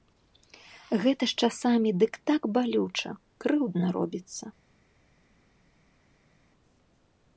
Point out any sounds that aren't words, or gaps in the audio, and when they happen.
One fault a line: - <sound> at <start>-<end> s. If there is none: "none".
none